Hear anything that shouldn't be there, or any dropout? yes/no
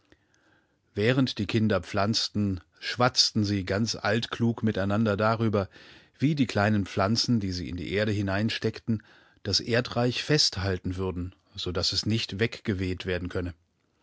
no